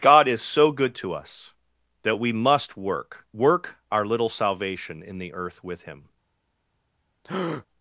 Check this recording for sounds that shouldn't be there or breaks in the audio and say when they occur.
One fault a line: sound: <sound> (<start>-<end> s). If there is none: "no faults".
sound: breath (7.2-7.7 s)